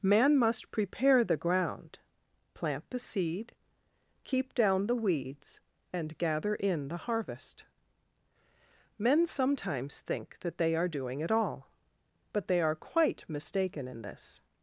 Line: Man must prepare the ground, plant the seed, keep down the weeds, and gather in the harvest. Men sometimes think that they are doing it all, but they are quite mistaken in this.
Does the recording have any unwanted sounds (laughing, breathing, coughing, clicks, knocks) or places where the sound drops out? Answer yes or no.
no